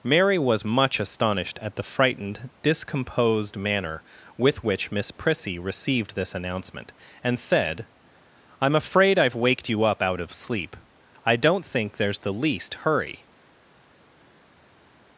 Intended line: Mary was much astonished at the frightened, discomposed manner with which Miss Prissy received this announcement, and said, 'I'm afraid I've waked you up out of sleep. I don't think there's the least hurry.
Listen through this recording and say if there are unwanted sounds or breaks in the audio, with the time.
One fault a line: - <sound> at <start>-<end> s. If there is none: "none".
none